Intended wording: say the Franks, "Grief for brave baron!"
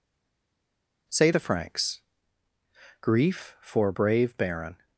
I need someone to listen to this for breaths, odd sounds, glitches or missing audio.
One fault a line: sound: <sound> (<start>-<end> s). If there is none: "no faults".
no faults